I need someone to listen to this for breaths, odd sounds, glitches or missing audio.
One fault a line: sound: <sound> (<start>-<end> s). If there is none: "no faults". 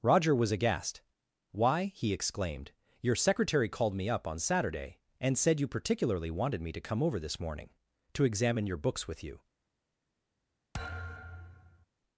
sound: thud (10.7-11.9 s)